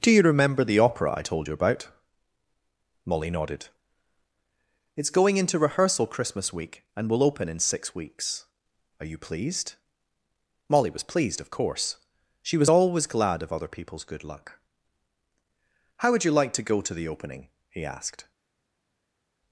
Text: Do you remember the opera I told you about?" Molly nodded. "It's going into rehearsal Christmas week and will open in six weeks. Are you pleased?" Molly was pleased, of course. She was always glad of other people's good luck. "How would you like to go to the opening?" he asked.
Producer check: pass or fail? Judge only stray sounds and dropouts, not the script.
pass